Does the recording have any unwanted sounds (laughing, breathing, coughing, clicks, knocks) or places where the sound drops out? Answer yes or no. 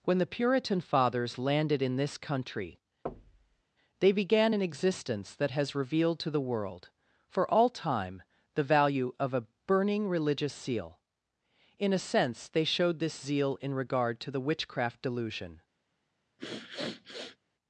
yes